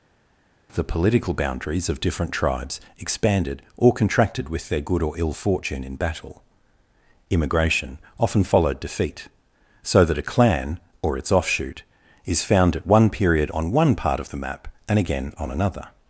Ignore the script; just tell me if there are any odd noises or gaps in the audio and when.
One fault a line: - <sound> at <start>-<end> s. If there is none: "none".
none